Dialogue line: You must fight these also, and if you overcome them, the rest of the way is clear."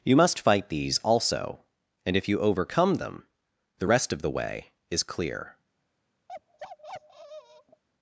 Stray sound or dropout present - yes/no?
yes